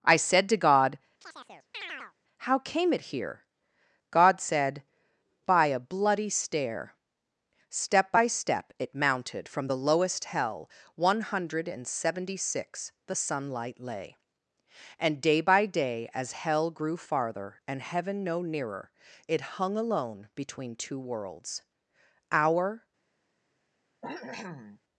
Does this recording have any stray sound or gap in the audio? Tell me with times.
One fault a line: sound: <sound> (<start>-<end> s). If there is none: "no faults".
sound: chirp (1.2-2.1 s)
sound: cough (24.0-24.8 s)